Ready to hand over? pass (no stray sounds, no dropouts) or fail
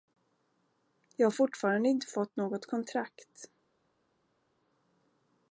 pass